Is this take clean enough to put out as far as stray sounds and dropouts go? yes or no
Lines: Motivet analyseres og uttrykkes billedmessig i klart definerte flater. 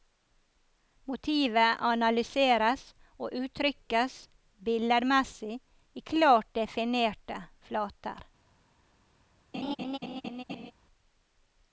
no